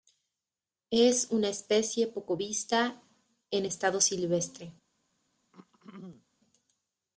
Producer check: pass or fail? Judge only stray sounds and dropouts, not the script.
fail